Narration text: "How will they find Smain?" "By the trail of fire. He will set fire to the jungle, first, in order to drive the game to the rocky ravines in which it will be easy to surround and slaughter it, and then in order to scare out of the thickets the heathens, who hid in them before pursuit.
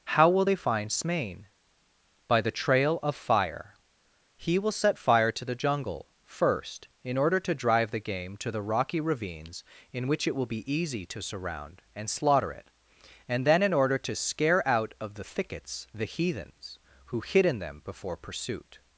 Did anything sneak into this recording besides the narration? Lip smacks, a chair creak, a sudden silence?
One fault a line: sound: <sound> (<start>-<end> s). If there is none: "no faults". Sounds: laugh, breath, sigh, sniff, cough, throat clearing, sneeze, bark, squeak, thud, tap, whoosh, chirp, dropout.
no faults